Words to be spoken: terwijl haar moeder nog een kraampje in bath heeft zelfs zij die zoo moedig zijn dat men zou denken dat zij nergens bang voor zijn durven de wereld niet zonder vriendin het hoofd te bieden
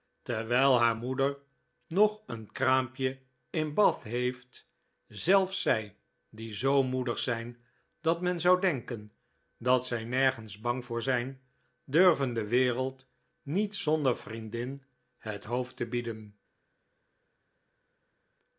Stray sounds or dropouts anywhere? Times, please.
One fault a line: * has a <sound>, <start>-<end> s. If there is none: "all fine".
all fine